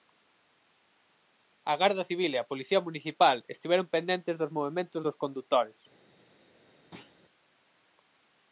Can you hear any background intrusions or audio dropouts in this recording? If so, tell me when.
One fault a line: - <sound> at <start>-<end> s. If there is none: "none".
- thud at 6.9-7.1 s